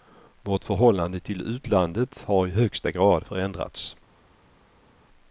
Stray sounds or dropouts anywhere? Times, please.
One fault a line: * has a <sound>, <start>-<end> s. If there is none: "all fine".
all fine